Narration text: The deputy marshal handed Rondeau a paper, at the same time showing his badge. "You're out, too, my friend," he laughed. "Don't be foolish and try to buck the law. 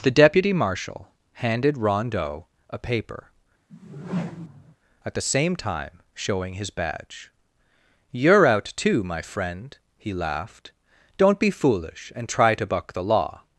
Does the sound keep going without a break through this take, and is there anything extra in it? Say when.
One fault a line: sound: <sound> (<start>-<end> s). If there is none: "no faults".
sound: whoosh (3.7-4.8 s)